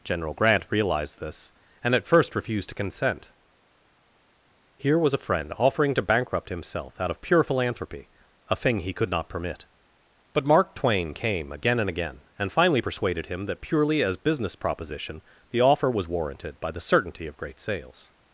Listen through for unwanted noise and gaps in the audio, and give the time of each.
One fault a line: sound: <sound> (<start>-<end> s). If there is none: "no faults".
no faults